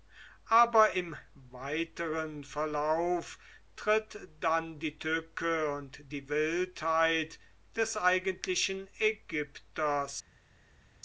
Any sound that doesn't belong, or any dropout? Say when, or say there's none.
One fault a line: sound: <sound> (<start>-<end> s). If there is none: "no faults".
no faults